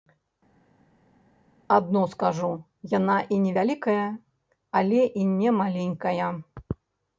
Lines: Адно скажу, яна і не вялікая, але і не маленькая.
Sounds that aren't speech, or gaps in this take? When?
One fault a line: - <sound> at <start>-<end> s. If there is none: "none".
none